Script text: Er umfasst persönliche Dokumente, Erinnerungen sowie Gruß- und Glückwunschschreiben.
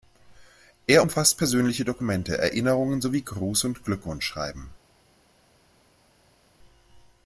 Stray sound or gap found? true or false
false